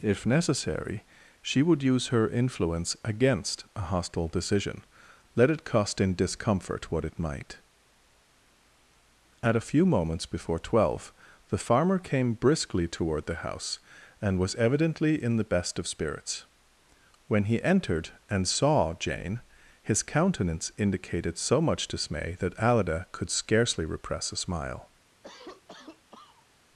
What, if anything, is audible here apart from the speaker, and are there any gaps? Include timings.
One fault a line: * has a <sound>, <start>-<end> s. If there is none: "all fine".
* has a cough, 25.2-26.5 s